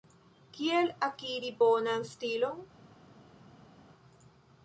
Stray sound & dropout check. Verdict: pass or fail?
pass